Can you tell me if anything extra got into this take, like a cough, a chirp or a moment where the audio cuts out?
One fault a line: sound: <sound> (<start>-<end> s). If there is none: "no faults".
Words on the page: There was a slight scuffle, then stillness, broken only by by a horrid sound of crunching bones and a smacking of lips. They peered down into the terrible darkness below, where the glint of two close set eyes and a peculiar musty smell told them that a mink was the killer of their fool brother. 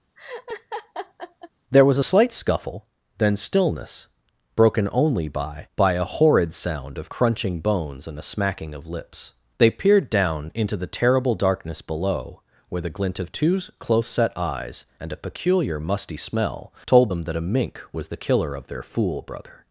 sound: laugh (0.2-1.5 s)